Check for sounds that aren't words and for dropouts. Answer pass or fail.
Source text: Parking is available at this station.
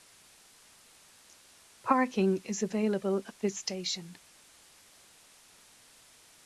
pass